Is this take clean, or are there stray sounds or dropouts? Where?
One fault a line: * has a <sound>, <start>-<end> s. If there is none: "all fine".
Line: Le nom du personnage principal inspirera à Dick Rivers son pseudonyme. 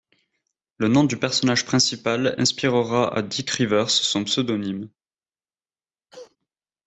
* has a cough, 6.1-6.4 s